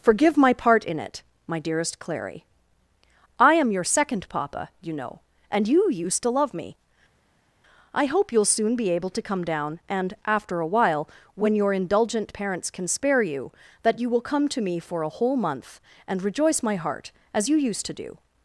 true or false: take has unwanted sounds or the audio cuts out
false